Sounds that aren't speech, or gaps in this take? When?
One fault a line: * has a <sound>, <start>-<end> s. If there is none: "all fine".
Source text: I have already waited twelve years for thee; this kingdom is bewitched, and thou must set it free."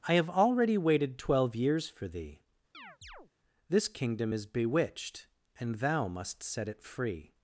* has a chirp, 2.7-3.3 s